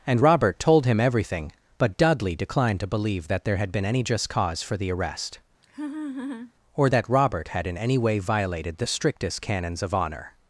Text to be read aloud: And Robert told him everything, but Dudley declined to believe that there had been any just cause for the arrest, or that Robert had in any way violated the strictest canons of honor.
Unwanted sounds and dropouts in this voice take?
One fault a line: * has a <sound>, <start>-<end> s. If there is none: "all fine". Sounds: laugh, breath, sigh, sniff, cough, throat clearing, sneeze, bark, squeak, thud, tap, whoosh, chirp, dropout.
* has a laugh, 5.6-6.5 s